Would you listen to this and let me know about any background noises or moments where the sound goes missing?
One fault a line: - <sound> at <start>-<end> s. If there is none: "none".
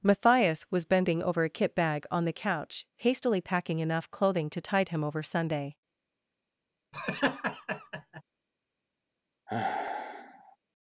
- laugh at 6.9-8.2 s
- sigh at 9.5-10.6 s